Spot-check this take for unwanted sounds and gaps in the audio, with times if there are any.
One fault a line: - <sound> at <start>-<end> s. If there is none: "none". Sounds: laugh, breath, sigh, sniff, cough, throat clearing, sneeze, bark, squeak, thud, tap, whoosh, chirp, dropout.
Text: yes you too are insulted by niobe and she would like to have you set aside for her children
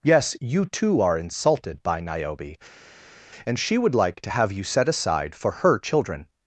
none